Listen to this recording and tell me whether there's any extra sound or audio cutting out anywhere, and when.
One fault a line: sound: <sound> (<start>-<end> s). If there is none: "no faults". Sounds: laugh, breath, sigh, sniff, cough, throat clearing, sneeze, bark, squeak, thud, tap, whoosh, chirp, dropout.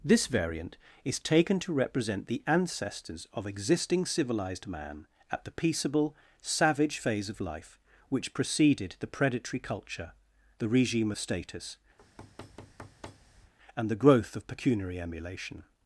sound: thud (12.0-13.5 s)